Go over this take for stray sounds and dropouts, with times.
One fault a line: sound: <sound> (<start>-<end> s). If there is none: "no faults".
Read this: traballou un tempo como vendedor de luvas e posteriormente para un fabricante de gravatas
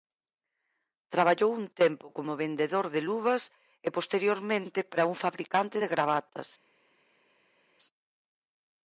no faults